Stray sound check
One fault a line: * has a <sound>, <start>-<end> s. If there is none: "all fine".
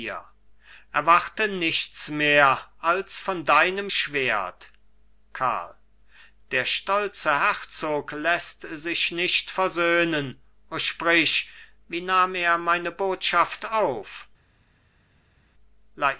all fine